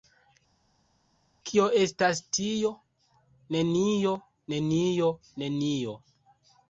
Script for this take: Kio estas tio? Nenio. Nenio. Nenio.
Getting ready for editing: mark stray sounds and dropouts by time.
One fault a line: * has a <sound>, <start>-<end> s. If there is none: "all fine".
all fine